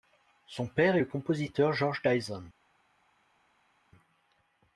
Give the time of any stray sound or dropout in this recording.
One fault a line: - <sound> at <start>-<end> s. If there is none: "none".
none